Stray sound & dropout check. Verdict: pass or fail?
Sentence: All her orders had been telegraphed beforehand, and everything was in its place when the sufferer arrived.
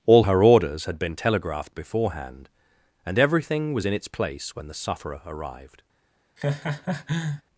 fail